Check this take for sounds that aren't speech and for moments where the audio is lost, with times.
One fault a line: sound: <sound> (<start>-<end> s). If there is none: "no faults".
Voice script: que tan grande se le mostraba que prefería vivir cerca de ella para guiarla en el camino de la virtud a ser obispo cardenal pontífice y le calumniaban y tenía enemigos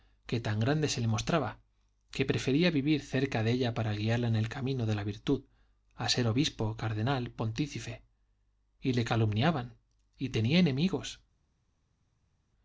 no faults